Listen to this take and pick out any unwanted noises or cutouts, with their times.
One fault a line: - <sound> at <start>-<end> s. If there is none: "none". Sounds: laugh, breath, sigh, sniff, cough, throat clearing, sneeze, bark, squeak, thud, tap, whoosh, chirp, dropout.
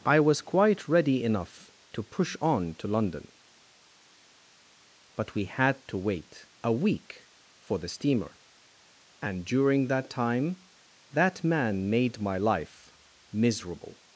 none